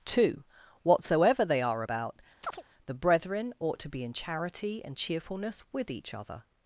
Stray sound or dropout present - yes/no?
yes